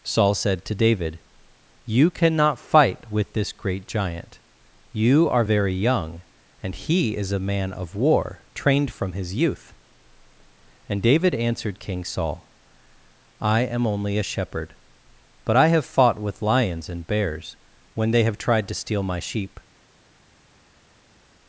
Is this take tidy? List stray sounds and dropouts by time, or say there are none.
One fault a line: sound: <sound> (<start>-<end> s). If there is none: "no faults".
no faults